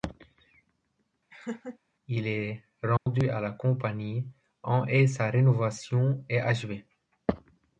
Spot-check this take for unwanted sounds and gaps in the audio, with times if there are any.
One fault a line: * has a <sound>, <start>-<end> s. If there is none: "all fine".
* has a laugh, 1.3-1.8 s
* has a dropout, 3.0-3.1 s